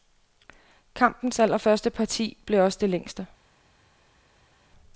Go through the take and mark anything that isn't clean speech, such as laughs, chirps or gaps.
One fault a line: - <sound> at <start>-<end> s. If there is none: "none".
none